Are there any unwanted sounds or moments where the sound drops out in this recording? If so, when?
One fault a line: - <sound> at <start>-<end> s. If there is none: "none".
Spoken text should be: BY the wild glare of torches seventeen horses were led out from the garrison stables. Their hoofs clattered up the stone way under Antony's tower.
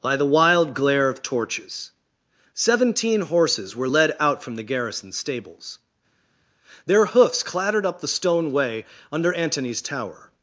none